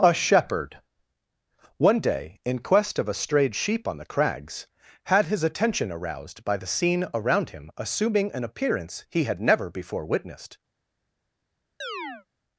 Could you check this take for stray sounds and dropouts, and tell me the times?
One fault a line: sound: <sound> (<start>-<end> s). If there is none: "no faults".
sound: chirp (11.8-12.3 s)